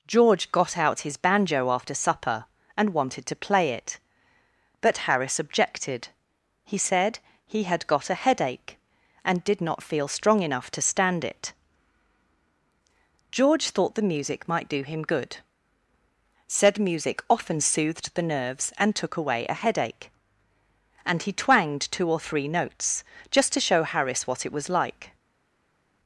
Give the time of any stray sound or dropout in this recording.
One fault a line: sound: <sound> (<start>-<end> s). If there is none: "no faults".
no faults